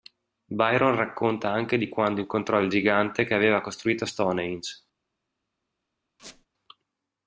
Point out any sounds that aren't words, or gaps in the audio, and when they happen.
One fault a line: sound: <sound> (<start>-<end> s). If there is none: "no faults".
sound: squeak (6.2-6.5 s)